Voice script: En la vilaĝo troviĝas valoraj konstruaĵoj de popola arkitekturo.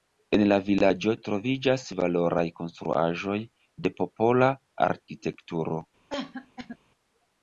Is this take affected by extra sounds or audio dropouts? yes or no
yes